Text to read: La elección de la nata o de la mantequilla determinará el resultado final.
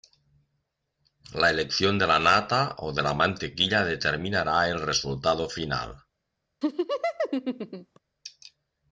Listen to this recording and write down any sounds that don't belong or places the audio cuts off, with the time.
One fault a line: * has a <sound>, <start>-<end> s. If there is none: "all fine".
* has a laugh, 6.6-8.0 s